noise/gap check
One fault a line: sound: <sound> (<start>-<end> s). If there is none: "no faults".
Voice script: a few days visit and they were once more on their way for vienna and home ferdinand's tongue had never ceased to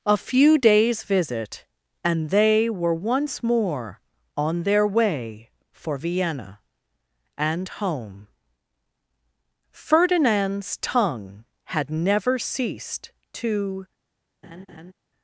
sound: laugh (14.4-14.9 s)